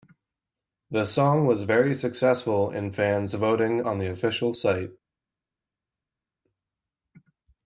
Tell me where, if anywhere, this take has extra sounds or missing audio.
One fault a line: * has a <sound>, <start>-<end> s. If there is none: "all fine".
all fine